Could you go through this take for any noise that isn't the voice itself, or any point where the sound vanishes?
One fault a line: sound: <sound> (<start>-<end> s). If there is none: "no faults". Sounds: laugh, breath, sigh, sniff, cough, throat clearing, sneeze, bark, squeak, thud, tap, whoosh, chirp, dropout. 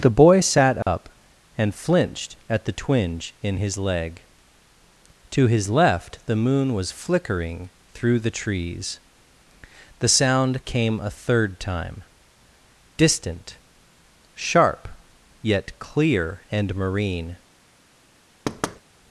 sound: dropout (0.8-0.9 s)
sound: thud (18.5-18.8 s)